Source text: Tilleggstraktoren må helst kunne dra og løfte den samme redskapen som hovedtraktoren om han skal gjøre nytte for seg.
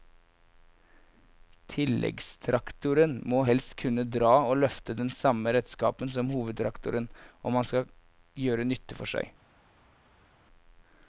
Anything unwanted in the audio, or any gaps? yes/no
no